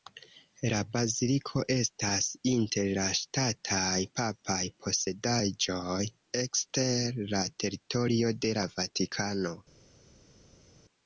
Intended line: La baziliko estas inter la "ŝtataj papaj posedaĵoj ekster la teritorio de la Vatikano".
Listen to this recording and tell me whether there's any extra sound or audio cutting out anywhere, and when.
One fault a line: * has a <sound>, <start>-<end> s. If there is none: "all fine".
all fine